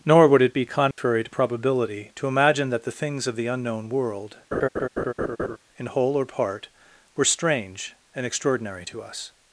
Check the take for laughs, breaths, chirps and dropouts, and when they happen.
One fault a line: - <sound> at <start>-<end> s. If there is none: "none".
- dropout at 0.9-1.0 s
- laugh at 4.5-5.6 s